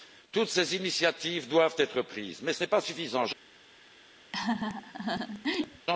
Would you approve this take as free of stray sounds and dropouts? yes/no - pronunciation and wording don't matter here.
no